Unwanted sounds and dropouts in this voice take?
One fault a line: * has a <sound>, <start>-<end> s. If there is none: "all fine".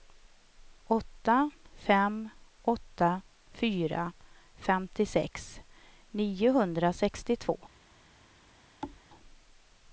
* has a thud, 8.8-9.0 s